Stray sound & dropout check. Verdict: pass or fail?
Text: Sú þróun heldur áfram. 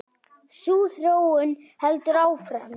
pass